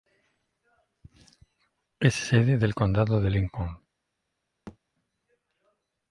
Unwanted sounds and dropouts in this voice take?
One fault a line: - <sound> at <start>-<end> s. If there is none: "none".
- thud at 4.7-4.8 s